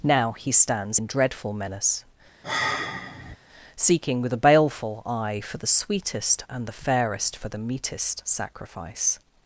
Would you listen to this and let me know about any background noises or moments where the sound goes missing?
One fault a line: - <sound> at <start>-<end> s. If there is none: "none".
- sigh at 2.4-3.4 s